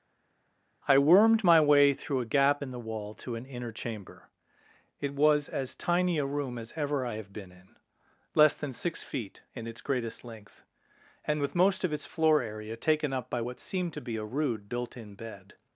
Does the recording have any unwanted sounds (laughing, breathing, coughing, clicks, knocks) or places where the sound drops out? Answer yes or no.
no